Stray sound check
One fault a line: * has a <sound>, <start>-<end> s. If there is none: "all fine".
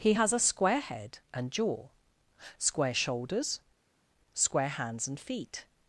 all fine